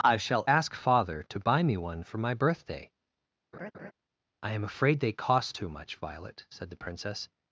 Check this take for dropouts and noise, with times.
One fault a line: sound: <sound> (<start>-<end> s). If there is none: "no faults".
sound: laugh (3.5-3.9 s)